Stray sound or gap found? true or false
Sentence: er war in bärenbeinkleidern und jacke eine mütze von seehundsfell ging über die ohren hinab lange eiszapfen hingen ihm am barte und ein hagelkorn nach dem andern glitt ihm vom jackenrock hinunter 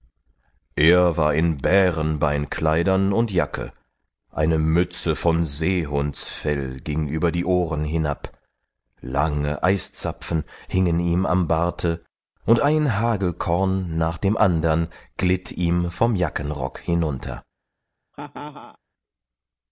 true